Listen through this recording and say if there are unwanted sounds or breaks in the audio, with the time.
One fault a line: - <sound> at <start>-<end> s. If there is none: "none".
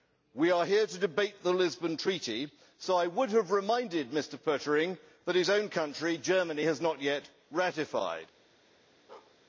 - bark at 9.1-9.4 s